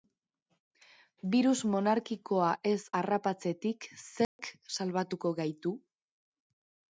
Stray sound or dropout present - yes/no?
yes